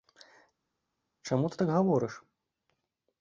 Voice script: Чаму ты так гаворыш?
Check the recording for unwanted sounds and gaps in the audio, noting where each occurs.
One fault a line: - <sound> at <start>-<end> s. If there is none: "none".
none